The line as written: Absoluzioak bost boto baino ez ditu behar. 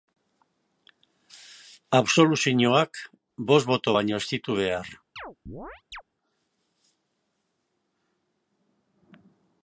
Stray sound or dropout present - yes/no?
yes